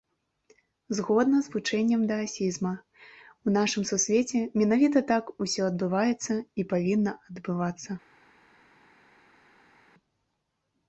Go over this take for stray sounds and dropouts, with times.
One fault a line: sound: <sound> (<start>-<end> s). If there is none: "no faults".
no faults